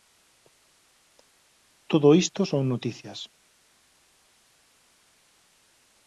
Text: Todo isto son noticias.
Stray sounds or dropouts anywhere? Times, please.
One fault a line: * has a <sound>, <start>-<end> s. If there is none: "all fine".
all fine